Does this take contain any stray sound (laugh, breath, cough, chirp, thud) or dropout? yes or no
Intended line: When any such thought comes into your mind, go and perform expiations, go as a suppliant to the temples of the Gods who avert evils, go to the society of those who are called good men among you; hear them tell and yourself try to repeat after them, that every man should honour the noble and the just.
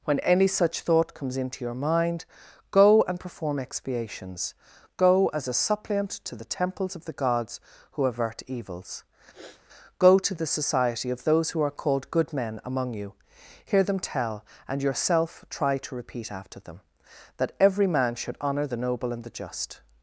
yes